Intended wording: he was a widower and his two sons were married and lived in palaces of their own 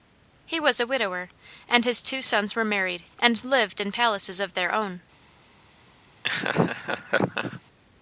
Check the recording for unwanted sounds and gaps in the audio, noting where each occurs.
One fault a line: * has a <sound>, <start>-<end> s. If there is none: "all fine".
* has a laugh, 6.2-7.6 s